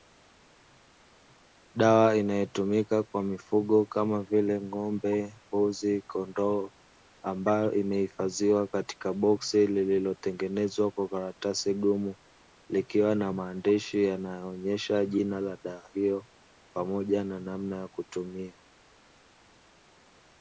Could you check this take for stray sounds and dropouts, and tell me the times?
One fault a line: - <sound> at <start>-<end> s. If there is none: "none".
none